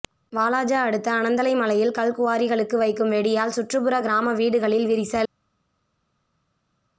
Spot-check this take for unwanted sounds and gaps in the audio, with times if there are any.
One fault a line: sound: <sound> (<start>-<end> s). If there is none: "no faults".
no faults